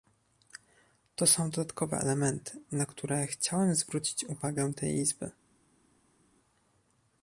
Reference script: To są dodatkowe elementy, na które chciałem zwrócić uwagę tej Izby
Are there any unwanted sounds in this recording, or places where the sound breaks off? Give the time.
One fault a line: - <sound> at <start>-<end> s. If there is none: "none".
none